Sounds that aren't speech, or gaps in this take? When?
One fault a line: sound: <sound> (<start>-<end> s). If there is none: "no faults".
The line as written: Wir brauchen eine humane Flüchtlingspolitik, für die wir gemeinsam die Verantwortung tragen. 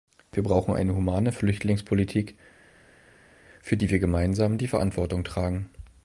no faults